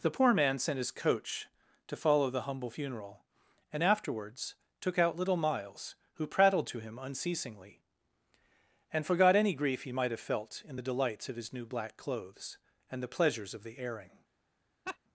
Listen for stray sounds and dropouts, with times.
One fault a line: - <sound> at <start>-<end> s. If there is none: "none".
- laugh at 14.9-15.0 s